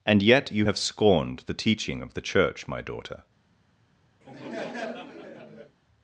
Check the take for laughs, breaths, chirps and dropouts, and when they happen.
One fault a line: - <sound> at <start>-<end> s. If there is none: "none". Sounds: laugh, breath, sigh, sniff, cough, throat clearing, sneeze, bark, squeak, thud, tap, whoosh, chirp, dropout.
- laugh at 4.2-5.8 s